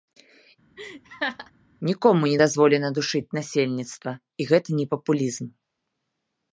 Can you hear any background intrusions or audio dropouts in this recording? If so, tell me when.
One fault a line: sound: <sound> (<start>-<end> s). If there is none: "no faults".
sound: laugh (0.8-1.5 s)